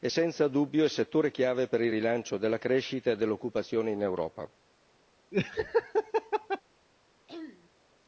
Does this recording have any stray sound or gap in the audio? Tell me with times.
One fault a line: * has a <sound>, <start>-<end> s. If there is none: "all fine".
* has a laugh, 5.3-6.6 s
* has a throat clearing, 7.3-7.7 s